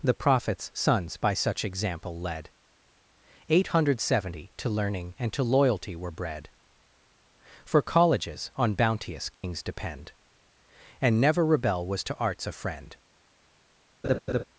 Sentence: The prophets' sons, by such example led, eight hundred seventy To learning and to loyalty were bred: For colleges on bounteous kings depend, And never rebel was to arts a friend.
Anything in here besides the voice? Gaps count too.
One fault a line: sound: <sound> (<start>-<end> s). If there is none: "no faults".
sound: dropout (9.3-9.4 s)
sound: laugh (14.0-14.4 s)